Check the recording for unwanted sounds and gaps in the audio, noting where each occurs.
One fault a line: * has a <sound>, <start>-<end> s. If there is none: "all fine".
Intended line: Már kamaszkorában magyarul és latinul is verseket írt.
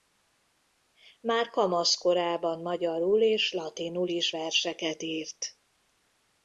all fine